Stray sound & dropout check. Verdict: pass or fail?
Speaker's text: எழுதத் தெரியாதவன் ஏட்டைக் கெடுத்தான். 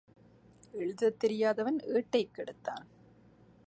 pass